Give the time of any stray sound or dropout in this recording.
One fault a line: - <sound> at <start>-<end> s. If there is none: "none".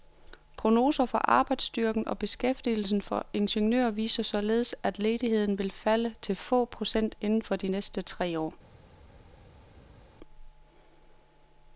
none